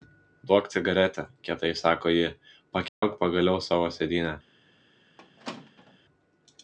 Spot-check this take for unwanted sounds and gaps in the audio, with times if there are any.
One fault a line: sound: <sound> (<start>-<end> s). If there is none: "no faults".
sound: dropout (2.9-3.0 s)
sound: squeak (5.2-6.0 s)